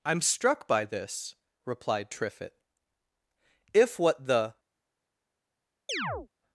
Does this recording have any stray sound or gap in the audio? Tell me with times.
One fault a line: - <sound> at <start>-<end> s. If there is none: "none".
- chirp at 5.9-6.3 s